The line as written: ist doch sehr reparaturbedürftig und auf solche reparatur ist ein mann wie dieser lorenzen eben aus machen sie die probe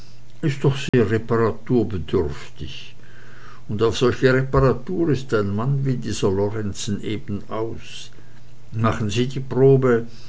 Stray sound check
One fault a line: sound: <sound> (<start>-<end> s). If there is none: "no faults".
sound: dropout (0.9-0.9 s)